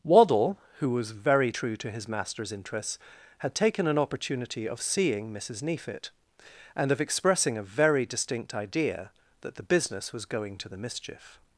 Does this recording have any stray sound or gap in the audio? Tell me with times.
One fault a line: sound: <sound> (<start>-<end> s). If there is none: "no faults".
no faults